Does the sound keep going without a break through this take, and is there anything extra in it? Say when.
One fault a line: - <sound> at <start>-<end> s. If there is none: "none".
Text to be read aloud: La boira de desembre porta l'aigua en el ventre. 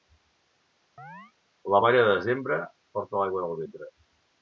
- chirp at 1.0-1.3 s